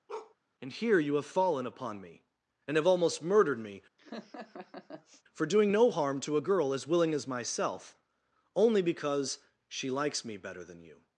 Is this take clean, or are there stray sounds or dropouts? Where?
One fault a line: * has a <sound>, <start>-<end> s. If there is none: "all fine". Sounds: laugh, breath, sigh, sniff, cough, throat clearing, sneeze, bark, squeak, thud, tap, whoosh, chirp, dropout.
* has a bark, 0.1-0.4 s
* has a laugh, 4.0-5.2 s